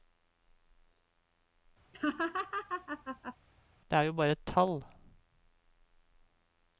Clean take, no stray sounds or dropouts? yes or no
no